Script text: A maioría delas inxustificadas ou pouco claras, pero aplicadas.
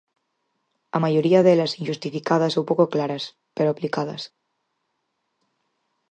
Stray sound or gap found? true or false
false